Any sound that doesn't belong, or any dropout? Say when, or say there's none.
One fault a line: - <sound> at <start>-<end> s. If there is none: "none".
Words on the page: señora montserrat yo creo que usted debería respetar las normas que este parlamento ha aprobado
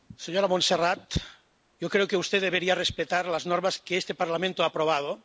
none